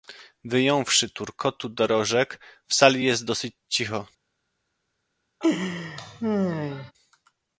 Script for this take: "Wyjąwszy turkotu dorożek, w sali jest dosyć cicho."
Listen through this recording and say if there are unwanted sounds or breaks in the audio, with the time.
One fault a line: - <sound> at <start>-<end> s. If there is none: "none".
- laugh at 5.4-6.9 s